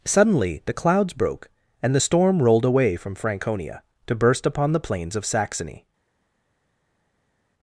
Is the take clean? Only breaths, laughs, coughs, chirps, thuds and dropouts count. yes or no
yes